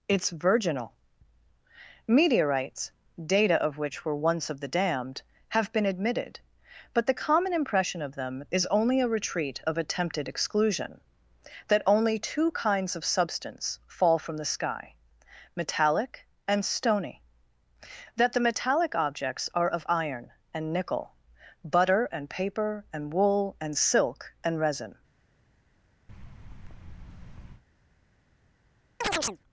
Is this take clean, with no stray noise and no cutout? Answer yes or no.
no